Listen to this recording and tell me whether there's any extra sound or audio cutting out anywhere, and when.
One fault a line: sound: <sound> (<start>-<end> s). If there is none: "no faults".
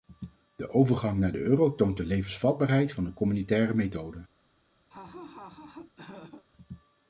sound: laugh (4.9-6.4 s)